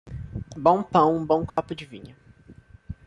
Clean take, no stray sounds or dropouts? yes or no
no